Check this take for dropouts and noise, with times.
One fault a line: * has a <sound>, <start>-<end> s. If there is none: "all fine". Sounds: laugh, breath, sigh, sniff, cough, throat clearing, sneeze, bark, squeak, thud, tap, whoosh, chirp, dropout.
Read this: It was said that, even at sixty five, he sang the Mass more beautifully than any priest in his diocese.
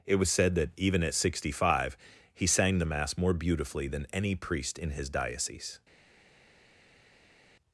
all fine